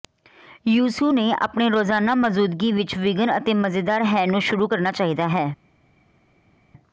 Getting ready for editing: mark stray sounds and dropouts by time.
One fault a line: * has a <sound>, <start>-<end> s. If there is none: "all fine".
all fine